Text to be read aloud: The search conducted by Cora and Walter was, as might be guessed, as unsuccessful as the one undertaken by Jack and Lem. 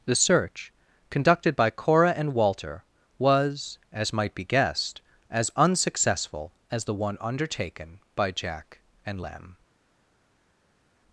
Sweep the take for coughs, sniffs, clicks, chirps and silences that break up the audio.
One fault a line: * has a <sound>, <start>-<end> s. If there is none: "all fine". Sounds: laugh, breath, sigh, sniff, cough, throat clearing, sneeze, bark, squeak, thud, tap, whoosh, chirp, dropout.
all fine